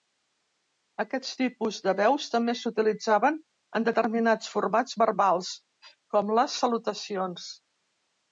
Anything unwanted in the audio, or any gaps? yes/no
no